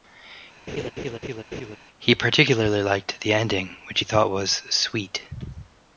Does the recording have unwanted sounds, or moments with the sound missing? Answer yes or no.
yes